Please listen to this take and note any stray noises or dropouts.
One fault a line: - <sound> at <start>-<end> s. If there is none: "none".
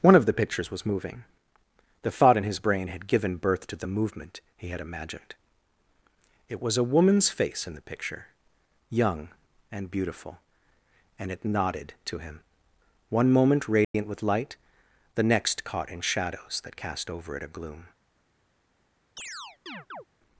- dropout at 13.8-13.9 s
- chirp at 19.2-20.0 s